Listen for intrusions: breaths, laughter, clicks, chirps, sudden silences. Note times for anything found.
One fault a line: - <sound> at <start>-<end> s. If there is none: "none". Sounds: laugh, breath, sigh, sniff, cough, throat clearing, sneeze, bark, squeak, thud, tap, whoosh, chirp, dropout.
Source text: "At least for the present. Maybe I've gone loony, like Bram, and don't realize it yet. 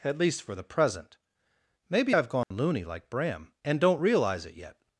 - dropout at 2.4-2.5 s